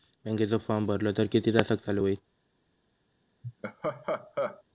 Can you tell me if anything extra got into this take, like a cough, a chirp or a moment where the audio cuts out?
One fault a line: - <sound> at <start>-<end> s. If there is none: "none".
- laugh at 3.4-4.6 s